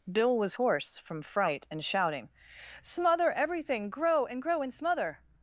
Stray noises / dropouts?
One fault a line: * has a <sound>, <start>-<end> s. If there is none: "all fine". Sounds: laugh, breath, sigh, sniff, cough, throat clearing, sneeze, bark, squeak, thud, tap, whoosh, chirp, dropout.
all fine